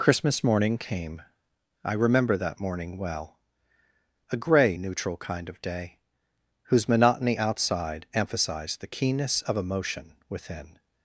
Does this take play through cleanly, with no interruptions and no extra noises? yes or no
yes